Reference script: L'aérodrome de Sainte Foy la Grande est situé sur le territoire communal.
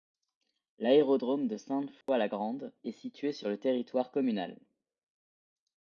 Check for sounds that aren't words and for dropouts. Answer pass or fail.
fail